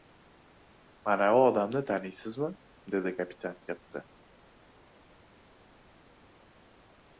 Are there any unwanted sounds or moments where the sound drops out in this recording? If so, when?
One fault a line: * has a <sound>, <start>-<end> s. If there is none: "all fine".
all fine